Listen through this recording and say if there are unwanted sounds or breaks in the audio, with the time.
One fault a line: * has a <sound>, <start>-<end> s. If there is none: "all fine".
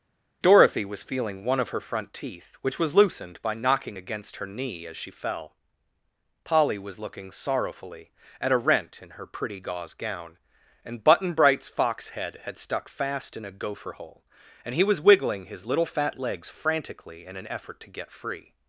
all fine